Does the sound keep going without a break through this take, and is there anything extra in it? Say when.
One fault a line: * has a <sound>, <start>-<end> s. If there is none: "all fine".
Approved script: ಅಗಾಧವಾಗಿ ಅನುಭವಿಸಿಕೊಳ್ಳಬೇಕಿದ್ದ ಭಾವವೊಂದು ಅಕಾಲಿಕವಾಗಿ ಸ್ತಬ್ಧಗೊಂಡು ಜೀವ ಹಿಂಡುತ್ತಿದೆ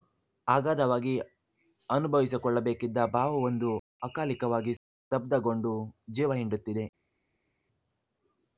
all fine